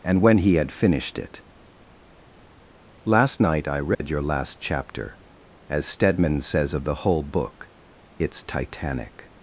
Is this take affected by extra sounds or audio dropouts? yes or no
yes